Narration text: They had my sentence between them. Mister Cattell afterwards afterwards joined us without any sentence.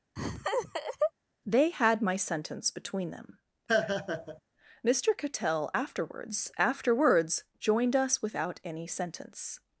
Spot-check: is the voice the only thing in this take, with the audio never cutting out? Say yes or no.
no